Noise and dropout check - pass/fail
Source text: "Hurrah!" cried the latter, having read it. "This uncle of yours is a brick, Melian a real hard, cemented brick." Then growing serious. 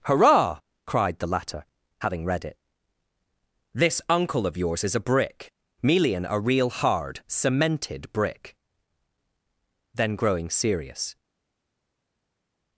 pass